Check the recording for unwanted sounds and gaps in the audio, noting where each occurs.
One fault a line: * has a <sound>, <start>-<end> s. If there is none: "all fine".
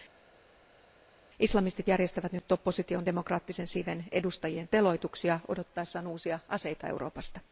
all fine